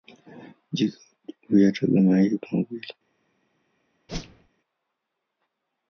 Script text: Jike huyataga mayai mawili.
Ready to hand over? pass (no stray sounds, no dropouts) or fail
fail